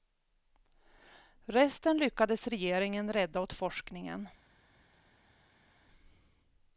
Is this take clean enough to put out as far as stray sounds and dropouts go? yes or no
yes